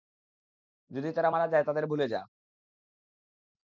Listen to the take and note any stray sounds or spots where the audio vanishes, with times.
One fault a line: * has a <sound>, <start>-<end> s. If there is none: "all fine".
all fine